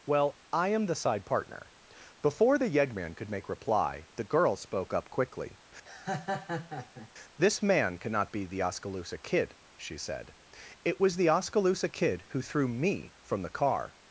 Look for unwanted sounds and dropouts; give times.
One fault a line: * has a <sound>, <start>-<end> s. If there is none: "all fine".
* has a laugh, 5.8-7.1 s